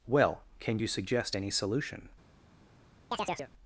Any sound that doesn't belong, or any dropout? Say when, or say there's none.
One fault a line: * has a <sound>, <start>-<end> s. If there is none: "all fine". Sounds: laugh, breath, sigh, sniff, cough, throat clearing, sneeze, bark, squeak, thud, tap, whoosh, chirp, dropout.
* has a chirp, 3.1-3.5 s